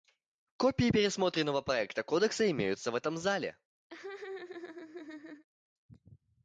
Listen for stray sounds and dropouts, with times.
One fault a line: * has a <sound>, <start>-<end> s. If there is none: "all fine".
* has a laugh, 3.9-5.5 s